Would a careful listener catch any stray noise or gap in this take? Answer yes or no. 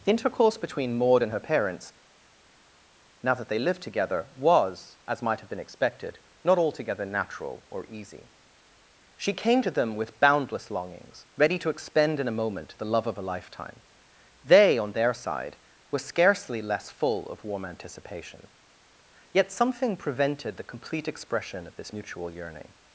no